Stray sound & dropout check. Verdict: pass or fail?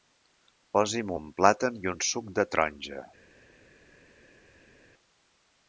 pass